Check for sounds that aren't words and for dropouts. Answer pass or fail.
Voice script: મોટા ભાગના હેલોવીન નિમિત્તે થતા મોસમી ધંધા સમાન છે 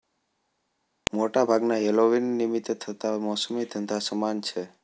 pass